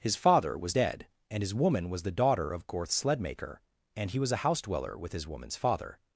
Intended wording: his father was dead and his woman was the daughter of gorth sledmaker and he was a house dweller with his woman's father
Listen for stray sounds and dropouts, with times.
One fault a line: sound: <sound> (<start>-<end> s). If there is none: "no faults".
no faults